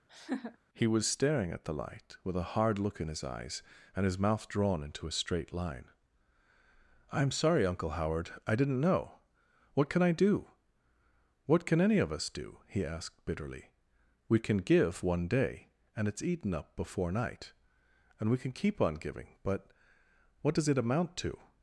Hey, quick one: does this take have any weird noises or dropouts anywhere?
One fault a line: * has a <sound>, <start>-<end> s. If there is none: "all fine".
* has a laugh, 0.1-0.6 s